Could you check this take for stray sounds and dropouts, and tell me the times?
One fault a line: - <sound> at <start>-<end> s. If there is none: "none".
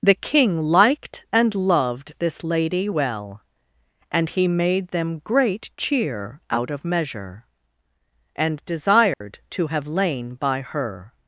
- dropout at 9.1-9.2 s